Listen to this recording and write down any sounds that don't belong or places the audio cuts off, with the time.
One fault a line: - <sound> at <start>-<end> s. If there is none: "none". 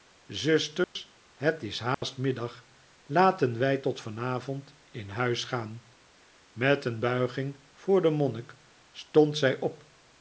- dropout at 0.8-1.0 s
- dropout at 1.9-2.0 s